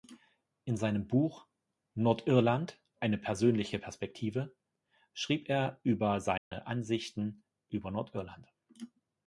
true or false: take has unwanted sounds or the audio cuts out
true